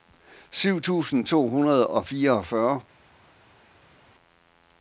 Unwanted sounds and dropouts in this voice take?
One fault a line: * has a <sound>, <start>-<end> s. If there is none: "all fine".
all fine